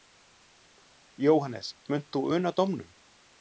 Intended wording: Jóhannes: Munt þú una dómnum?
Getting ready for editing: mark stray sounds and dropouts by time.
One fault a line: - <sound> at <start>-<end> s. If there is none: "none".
none